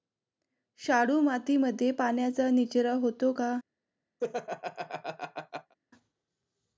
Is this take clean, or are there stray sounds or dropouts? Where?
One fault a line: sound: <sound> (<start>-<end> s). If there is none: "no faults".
sound: laugh (4.2-5.7 s)